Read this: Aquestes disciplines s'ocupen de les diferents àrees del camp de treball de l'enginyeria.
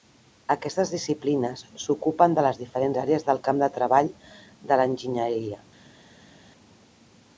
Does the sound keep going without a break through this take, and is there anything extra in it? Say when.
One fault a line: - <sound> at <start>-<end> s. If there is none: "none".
none